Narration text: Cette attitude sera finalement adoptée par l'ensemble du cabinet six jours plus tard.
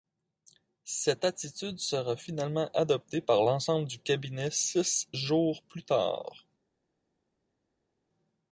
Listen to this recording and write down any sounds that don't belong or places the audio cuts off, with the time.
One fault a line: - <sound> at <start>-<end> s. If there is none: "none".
none